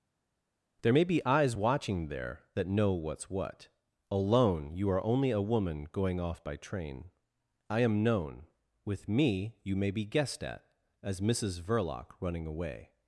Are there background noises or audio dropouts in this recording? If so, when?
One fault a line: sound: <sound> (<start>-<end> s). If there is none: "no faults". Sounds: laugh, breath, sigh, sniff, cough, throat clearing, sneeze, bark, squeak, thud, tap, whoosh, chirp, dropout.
no faults